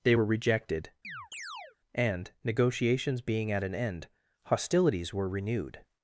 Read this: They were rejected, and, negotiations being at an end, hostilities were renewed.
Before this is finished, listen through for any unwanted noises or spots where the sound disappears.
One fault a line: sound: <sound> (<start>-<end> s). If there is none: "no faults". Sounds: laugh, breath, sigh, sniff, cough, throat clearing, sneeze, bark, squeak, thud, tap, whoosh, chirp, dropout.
sound: chirp (1.0-1.8 s)